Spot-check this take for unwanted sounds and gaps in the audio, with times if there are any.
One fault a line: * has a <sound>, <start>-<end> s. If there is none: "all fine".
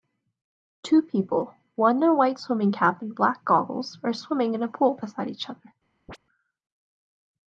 * has a chirp, 6.1-6.2 s